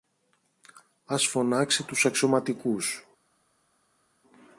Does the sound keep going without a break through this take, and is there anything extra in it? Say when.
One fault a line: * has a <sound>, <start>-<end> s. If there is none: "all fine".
all fine